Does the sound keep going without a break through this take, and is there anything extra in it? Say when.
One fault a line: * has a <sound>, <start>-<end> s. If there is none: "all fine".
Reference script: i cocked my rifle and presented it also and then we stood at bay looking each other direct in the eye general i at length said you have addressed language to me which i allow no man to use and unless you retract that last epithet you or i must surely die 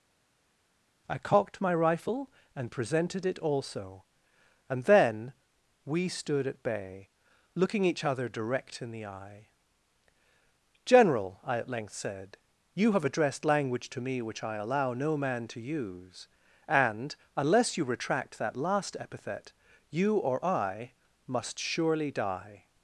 all fine